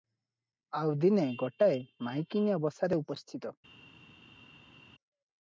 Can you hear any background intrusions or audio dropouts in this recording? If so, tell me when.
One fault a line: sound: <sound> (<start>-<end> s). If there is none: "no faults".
no faults